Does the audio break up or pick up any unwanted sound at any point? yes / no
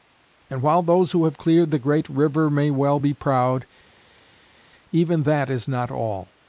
no